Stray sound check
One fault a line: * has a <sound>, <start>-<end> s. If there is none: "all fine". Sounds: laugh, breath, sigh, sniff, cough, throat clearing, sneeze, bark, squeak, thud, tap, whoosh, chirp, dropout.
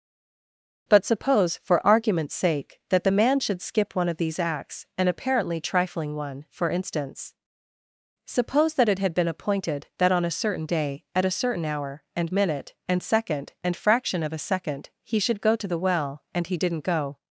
all fine